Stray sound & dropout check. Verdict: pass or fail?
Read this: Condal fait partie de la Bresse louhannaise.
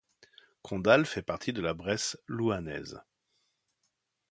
pass